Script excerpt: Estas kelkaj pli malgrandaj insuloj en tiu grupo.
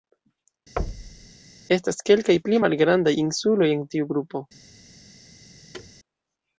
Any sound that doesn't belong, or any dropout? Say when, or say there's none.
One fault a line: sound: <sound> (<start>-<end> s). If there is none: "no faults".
sound: thud (0.8-1.3 s)
sound: thud (5.7-5.9 s)